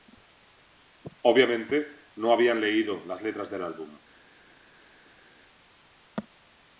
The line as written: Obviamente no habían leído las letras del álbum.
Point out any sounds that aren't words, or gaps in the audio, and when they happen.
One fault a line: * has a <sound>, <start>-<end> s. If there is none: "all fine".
all fine